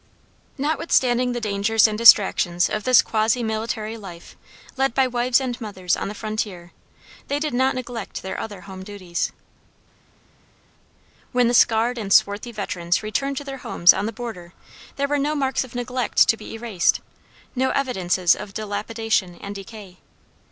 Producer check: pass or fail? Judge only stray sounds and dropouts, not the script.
pass